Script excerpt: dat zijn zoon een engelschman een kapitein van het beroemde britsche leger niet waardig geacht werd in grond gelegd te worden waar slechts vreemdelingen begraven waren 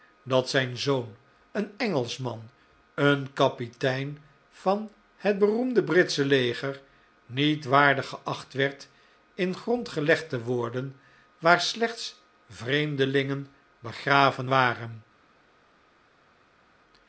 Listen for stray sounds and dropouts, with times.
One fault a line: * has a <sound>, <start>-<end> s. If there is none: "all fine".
all fine